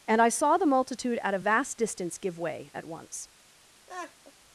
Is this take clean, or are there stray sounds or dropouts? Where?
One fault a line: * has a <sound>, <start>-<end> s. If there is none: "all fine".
* has a laugh, 3.9-4.3 s